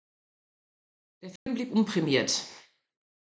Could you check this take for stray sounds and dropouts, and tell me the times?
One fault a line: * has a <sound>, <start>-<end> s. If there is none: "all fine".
* has a dropout, 1.4-1.5 s